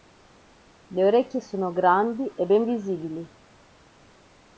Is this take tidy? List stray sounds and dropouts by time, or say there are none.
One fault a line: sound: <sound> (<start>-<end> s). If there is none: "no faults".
no faults